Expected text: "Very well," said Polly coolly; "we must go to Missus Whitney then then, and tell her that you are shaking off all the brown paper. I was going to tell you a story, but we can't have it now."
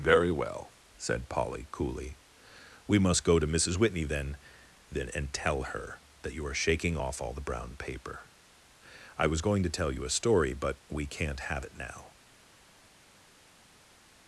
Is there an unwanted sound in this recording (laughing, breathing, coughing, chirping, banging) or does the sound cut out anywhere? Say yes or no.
no